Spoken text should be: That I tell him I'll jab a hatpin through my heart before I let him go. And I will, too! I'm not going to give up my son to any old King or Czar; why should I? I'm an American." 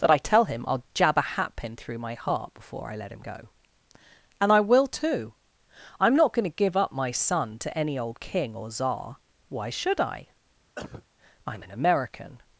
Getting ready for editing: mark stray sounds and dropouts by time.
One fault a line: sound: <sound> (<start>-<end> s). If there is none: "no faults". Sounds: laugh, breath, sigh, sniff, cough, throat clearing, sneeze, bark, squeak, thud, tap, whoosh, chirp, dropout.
sound: cough (10.8-11.1 s)